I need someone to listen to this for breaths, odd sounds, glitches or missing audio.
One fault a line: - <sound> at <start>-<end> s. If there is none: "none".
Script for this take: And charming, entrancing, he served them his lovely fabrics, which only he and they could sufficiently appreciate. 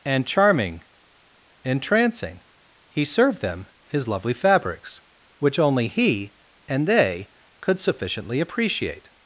none